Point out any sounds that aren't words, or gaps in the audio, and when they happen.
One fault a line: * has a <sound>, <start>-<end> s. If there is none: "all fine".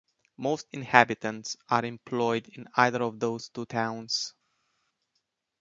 all fine